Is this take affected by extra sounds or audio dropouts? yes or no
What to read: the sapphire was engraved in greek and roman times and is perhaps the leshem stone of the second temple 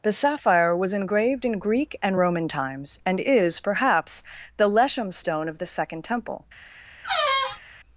yes